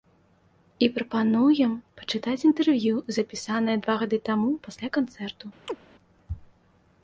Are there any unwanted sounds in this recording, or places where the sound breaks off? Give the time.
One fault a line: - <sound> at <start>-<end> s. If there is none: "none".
- chirp at 5.7-5.8 s